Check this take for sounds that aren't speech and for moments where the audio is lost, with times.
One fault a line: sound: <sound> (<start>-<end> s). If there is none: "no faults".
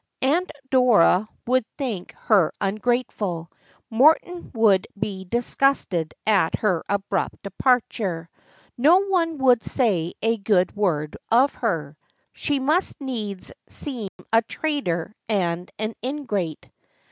sound: dropout (14.1-14.2 s)